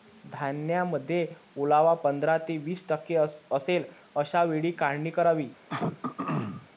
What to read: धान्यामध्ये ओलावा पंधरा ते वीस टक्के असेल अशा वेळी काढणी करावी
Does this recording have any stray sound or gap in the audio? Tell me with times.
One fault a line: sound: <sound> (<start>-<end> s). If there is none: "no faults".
sound: throat clearing (5.7-6.7 s)